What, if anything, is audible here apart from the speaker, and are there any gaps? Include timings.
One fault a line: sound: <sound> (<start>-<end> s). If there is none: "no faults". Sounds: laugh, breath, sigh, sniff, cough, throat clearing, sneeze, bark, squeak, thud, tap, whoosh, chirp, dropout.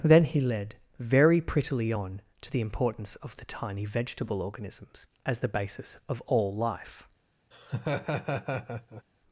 sound: laugh (7.5-9.0 s)